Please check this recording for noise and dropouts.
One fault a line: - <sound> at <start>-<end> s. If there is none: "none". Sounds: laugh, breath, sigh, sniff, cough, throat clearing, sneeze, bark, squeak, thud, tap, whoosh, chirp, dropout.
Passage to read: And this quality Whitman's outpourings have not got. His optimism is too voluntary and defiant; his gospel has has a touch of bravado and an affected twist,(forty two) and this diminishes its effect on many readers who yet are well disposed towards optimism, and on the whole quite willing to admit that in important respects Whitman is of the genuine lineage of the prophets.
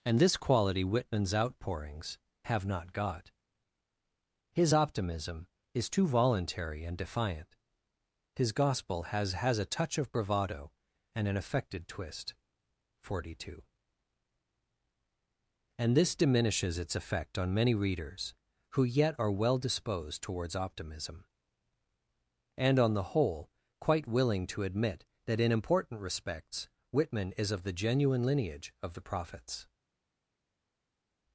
none